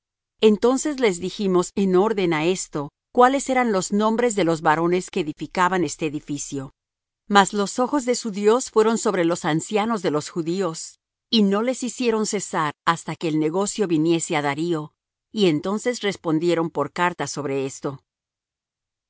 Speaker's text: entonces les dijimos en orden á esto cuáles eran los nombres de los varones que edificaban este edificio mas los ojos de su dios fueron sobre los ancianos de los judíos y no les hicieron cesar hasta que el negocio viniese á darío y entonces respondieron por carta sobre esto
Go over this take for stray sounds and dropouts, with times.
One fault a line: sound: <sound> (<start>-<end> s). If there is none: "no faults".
no faults